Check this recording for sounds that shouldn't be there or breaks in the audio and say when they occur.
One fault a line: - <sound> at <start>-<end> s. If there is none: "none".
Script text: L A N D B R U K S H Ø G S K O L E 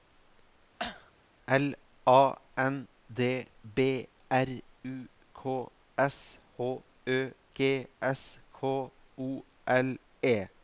- cough at 0.8-1.1 s